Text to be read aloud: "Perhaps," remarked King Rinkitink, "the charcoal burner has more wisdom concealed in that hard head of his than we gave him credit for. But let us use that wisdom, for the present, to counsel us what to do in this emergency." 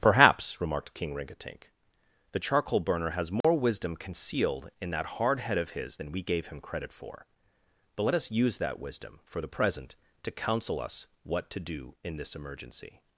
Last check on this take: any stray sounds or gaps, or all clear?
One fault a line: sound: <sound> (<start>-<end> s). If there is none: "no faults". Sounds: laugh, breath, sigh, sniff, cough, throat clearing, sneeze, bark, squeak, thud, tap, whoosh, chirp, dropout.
sound: dropout (3.4-3.4 s)